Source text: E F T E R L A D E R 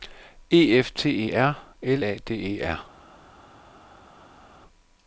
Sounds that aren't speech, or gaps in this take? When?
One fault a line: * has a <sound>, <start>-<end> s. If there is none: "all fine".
all fine